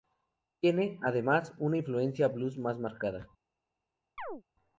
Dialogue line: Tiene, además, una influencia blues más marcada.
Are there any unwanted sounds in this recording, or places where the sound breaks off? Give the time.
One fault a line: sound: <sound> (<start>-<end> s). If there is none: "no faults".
sound: chirp (4.2-4.4 s)